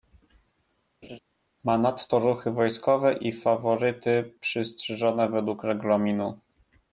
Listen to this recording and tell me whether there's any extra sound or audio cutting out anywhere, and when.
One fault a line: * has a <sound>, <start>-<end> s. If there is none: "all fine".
* has a laugh, 1.0-1.2 s